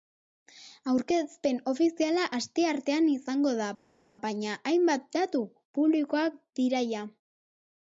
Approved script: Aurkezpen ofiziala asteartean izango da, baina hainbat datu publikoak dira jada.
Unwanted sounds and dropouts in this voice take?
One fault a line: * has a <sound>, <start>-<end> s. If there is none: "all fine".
all fine